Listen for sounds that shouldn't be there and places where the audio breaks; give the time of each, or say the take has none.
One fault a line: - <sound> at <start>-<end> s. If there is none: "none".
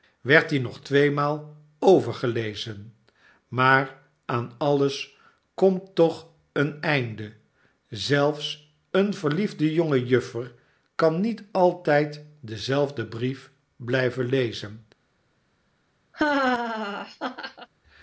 - laugh at 16.1-17.7 s